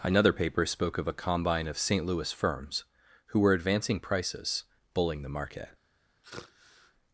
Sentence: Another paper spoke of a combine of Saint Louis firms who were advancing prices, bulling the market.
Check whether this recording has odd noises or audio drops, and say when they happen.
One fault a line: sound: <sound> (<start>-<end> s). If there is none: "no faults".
sound: sigh (6.2-6.9 s)